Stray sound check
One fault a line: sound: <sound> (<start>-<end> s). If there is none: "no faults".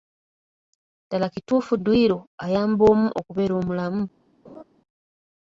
sound: laugh (4.4-4.6 s)